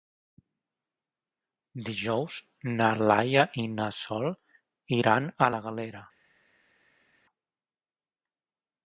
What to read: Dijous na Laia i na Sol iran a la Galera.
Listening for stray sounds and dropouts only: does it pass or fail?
pass